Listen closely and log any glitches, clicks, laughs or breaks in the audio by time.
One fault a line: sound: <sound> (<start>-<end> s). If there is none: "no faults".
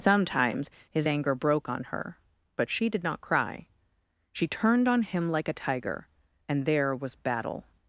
no faults